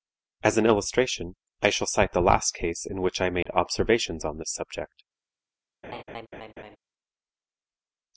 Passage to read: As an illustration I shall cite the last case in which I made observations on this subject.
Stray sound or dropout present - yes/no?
yes